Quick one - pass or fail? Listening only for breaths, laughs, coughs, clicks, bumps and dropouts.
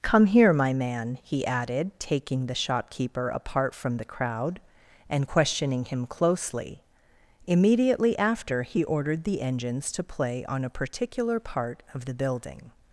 pass